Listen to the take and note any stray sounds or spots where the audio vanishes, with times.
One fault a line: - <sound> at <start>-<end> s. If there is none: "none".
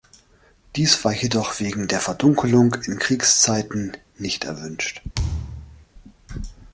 - thud at 5.1-5.9 s